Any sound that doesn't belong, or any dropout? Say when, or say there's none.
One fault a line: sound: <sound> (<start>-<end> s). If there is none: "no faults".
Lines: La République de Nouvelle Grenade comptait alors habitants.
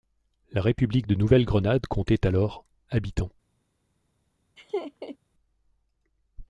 sound: laugh (4.6-5.2 s)